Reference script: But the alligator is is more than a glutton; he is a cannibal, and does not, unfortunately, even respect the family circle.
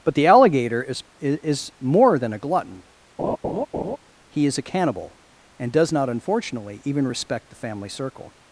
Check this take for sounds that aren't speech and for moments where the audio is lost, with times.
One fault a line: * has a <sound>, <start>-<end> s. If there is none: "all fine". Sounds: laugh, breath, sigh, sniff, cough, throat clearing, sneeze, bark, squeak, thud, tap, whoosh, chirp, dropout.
* has a laugh, 3.2-4.0 s